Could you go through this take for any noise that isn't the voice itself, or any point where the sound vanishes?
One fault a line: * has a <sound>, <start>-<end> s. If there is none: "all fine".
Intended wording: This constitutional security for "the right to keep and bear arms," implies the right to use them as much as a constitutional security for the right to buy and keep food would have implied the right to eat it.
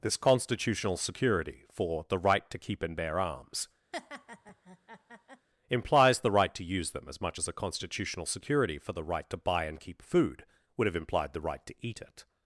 * has a laugh, 3.9-5.5 s